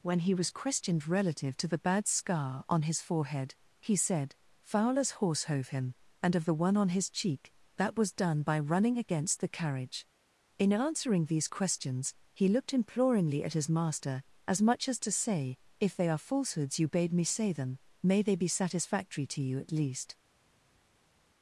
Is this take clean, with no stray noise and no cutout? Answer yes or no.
yes